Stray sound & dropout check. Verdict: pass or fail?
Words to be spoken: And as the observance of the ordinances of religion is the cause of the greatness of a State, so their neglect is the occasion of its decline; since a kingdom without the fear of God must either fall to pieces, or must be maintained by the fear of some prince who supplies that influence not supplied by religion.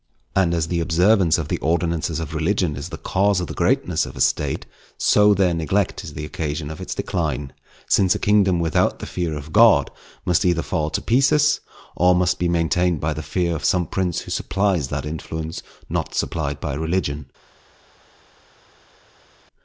pass